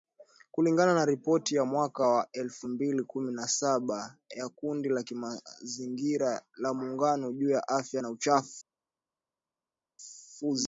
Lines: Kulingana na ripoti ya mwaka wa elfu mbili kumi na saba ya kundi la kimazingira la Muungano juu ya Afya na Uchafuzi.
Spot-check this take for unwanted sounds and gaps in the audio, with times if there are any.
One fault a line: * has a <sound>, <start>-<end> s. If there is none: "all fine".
all fine